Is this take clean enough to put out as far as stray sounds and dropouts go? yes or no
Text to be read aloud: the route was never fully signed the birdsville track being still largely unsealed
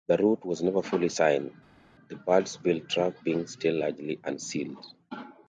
yes